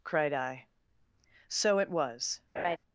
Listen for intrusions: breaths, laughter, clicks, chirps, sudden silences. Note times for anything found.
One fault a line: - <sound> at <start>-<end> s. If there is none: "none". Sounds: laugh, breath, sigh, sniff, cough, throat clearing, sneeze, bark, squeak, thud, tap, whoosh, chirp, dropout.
- laugh at 2.6-2.8 s